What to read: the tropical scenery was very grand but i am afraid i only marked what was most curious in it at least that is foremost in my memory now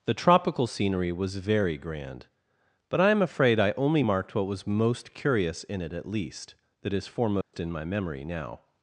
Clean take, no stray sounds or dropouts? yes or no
no